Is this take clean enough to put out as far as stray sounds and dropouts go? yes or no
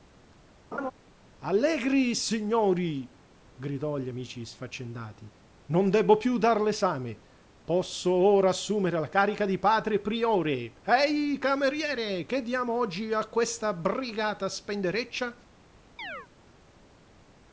no